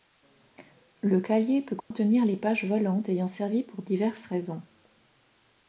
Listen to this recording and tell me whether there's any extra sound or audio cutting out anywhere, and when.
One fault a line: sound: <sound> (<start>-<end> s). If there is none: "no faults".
sound: dropout (1.8-1.9 s)